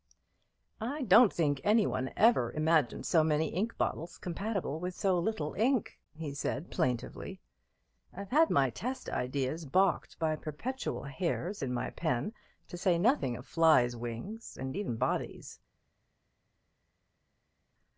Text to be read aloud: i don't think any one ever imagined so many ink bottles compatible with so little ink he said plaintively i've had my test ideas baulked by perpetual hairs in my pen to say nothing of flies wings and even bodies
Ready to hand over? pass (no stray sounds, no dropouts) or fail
pass